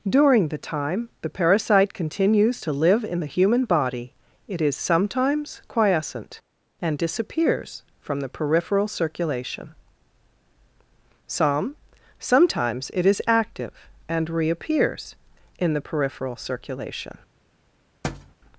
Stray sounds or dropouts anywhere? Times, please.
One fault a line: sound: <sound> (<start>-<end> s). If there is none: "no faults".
sound: thud (18.0-18.4 s)